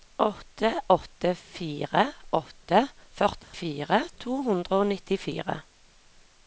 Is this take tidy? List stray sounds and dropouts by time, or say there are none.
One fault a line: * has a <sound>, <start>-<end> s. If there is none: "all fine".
* has a dropout, 3.4-3.5 s